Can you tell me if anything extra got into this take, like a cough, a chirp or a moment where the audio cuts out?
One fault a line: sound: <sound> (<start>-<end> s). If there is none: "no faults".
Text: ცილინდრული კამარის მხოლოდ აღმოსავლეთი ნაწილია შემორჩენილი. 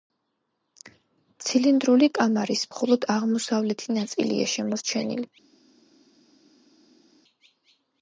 no faults